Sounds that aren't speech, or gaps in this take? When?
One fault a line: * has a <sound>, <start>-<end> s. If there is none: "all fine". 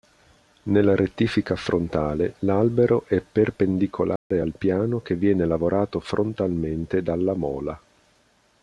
* has a dropout, 4.2-4.3 s